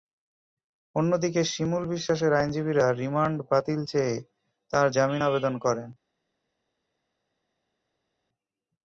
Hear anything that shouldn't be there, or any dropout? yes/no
no